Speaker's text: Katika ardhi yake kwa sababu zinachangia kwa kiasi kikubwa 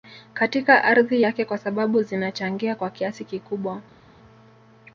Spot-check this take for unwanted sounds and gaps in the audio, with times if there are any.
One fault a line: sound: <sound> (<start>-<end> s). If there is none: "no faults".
no faults